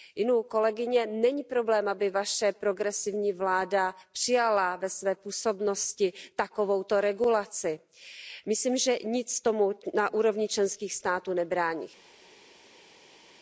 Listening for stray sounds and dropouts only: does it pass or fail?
pass